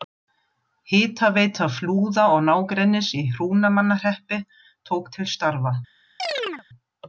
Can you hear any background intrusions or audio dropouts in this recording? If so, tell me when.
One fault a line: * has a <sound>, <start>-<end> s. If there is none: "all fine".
* has a chirp, 6.2-6.6 s